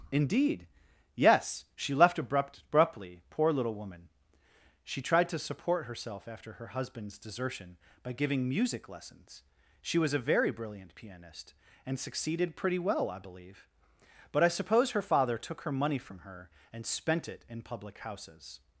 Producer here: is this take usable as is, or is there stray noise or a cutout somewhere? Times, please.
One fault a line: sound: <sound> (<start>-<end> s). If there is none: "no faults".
no faults